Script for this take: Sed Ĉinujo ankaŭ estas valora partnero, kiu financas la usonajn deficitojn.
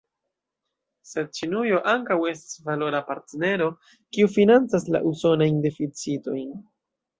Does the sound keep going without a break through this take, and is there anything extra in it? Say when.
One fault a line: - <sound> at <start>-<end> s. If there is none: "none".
none